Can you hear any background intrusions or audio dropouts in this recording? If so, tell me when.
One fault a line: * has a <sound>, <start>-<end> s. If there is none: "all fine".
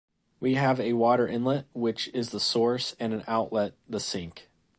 all fine